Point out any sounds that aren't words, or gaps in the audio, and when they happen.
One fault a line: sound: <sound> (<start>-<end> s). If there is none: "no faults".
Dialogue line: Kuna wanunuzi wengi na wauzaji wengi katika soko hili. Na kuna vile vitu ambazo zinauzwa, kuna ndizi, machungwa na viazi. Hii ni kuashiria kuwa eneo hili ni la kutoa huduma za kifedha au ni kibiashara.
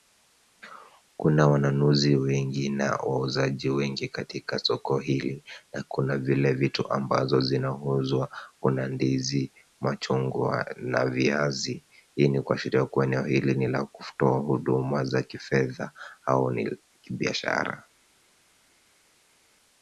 no faults